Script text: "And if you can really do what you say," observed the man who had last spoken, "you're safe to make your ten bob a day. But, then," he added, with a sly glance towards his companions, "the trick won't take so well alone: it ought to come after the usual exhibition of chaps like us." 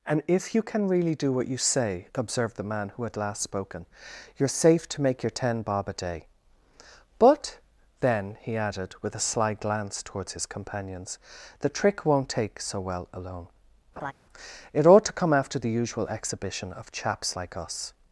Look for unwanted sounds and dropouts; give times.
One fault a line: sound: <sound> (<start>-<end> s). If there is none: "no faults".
sound: laugh (14.0-14.1 s)